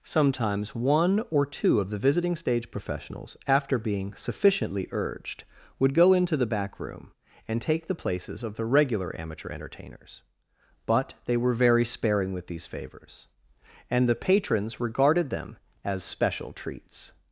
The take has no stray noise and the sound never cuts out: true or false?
true